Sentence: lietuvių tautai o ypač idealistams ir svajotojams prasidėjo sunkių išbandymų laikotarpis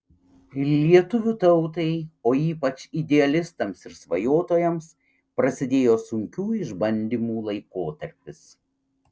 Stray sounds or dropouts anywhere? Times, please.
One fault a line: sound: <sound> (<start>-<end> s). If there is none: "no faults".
no faults